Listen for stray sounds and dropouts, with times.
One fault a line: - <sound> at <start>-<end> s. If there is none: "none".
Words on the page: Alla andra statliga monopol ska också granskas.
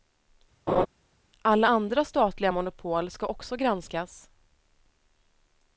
- laugh at 0.7-0.9 s